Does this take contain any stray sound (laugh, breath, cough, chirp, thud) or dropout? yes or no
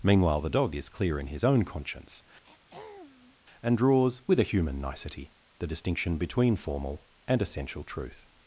yes